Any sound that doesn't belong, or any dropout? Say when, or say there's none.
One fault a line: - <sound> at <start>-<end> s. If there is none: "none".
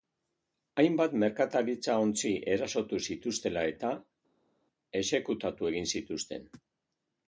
none